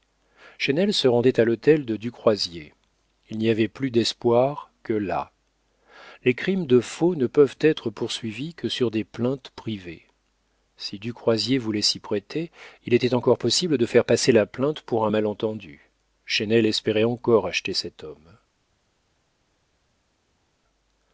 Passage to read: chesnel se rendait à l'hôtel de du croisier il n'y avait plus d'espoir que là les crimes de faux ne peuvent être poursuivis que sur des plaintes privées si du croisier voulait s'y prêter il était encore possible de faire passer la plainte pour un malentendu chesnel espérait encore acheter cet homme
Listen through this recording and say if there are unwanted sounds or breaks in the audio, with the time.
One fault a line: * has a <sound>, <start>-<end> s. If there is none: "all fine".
all fine